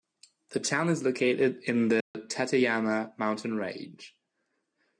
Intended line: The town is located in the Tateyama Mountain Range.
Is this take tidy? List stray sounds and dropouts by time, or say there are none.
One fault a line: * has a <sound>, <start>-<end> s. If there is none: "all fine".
* has a dropout, 2.0-2.1 s